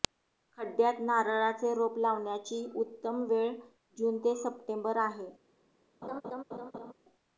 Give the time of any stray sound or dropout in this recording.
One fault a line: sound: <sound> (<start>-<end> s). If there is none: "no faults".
sound: laugh (6.0-6.9 s)